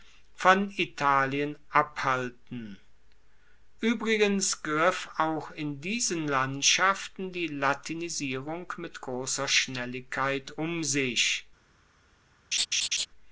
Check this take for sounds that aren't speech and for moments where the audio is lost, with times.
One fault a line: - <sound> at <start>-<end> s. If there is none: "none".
- laugh at 12.5-13.1 s